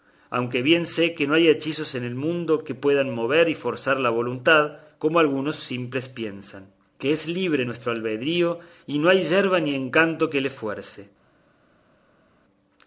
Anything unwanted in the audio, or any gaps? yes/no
no